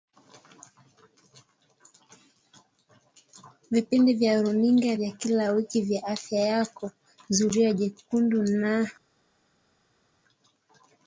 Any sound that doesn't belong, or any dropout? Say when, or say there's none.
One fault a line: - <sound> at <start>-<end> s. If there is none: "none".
none